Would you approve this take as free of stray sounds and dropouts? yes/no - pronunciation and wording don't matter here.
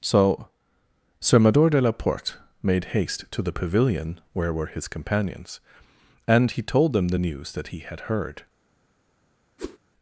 no